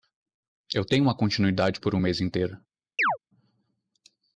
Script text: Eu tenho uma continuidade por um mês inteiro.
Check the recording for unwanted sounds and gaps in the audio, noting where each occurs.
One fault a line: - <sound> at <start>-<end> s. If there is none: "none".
- chirp at 3.0-3.2 s